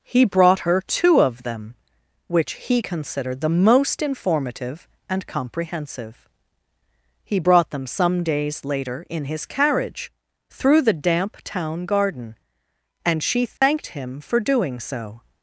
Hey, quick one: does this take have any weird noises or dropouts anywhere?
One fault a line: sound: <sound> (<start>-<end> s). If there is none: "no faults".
sound: dropout (13.6-13.6 s)